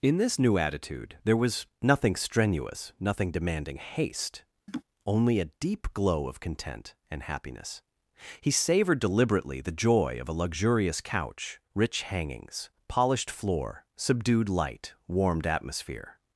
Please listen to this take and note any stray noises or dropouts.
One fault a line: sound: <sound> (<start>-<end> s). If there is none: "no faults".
sound: laugh (4.7-4.8 s)